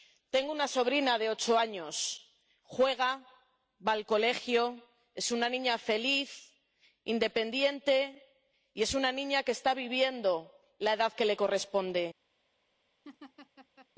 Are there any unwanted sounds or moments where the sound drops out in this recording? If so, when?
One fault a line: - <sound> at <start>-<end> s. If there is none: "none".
- laugh at 13.0-13.9 s